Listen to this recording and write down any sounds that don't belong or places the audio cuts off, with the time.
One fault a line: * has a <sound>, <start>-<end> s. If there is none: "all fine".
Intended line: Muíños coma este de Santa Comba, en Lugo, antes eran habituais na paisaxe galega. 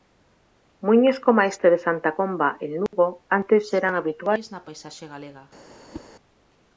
* has a dropout, 2.9-2.9 s
* has a whoosh, 5.9-6.1 s